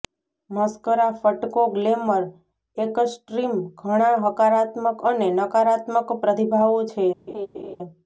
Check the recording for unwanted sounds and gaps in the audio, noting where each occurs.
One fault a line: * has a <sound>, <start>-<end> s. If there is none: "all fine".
* has a laugh, 7.3-7.8 s